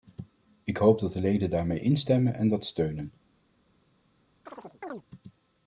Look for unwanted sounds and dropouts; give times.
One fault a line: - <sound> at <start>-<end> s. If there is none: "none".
- chirp at 4.5-5.0 s